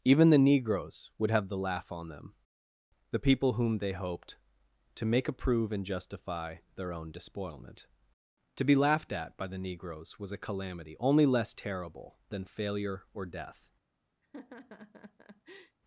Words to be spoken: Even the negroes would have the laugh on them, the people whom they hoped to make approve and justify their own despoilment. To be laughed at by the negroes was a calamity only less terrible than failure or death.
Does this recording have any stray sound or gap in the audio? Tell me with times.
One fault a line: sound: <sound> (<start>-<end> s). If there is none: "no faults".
sound: laugh (14.2-15.8 s)